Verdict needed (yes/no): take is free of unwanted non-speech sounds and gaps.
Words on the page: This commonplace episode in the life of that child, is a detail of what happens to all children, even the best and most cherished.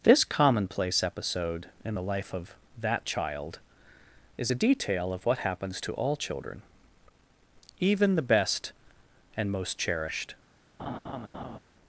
no